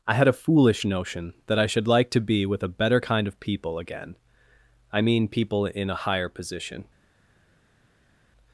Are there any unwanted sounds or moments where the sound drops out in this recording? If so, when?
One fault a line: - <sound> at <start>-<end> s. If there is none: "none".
none